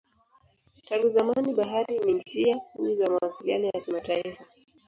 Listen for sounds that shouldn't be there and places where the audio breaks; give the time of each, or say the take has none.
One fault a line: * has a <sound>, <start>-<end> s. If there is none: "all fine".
all fine